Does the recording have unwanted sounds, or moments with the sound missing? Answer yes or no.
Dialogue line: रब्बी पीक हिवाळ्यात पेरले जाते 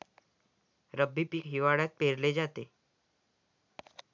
no